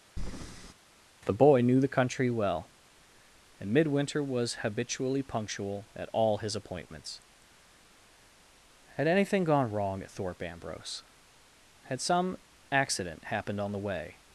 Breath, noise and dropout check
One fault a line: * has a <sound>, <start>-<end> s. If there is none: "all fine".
* has a breath, 0.2-0.7 s